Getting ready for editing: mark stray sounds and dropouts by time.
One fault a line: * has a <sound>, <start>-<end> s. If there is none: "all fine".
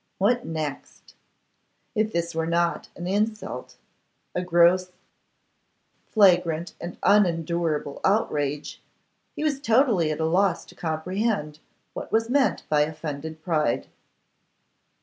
all fine